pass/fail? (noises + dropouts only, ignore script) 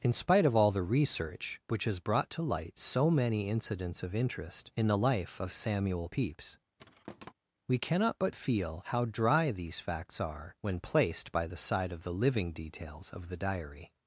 fail